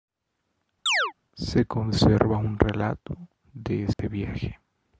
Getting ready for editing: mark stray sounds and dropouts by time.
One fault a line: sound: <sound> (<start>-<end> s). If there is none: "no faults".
sound: chirp (0.9-1.1 s)
sound: dropout (3.9-4.0 s)